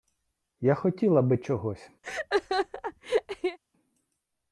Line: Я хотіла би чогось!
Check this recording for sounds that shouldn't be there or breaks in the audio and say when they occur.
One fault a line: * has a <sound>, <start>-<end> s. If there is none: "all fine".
* has a laugh, 2.0-3.6 s